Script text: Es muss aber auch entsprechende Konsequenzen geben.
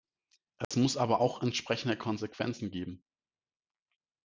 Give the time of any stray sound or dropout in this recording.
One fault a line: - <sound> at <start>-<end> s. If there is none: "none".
- dropout at 0.6-0.7 s